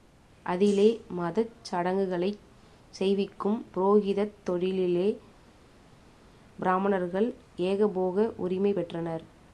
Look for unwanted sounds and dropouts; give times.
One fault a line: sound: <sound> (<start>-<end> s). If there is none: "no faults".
no faults